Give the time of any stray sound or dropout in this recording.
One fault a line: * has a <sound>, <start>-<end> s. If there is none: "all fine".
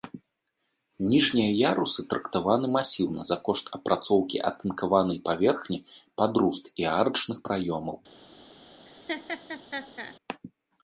* has a laugh, 8.9-10.2 s